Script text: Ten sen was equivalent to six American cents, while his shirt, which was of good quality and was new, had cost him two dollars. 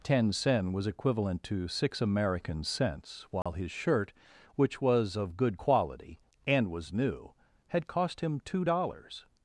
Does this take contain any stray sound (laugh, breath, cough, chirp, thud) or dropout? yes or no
yes